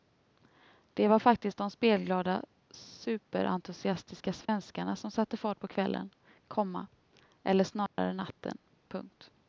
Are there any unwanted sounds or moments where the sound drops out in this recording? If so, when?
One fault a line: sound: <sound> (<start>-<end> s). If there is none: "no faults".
sound: dropout (4.5-4.5 s)
sound: dropout (7.9-8.0 s)